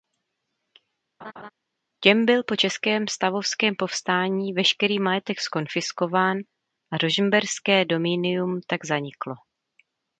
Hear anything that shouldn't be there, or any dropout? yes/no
yes